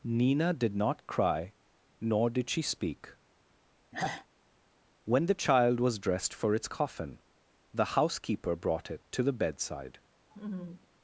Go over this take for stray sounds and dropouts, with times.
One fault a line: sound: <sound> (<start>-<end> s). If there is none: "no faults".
sound: sigh (3.9-4.3 s)
sound: laugh (10.3-10.9 s)